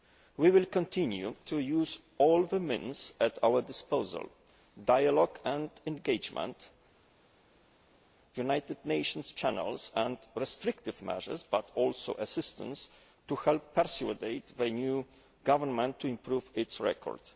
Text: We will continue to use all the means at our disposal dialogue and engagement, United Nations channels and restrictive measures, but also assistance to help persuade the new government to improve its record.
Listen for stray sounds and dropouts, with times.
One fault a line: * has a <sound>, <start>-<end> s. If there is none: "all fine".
all fine